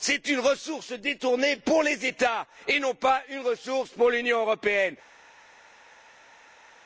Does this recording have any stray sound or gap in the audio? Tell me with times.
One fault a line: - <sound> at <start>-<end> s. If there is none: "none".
none